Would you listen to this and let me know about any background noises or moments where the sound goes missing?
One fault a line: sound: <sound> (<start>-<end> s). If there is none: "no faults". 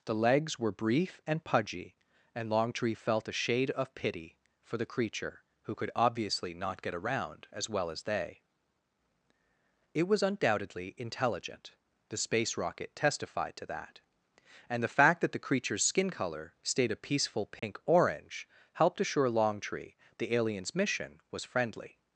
sound: dropout (17.6-17.6 s)